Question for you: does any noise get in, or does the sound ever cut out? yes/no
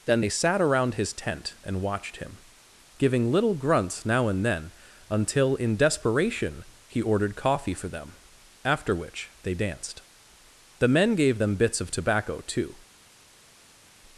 no